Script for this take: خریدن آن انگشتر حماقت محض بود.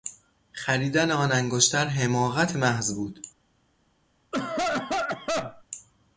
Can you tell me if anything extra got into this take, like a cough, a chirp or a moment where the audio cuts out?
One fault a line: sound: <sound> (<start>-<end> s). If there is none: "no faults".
sound: cough (4.3-5.6 s)